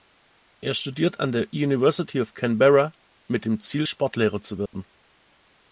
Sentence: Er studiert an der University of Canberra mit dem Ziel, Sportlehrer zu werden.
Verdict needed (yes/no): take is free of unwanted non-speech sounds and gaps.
no